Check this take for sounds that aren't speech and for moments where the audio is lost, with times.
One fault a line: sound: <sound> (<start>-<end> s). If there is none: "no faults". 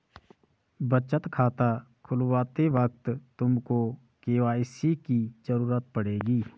no faults